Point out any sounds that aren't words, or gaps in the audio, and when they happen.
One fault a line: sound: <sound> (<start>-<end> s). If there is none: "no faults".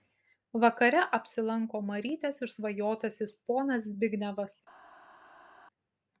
no faults